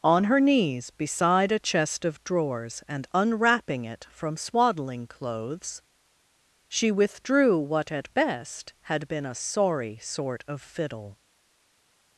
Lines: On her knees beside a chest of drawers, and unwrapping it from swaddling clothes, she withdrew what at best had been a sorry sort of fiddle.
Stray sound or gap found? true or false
false